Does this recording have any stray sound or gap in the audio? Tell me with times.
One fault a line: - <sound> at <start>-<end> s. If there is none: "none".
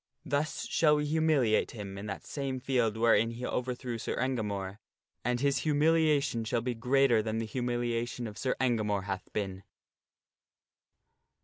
none